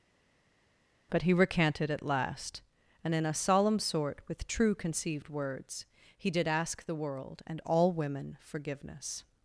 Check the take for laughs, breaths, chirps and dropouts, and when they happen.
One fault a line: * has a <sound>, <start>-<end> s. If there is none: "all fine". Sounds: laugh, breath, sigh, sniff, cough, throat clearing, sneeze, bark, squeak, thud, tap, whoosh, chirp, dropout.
all fine